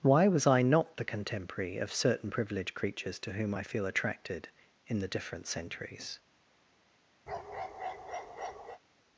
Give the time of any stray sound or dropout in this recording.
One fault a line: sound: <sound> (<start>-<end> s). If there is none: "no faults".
sound: bark (7.3-8.8 s)